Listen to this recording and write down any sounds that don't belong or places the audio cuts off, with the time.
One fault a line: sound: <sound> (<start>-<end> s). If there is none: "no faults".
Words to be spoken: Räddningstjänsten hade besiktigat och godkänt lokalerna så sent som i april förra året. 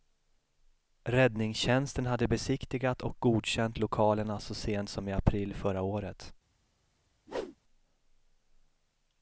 sound: whoosh (7.3-7.6 s)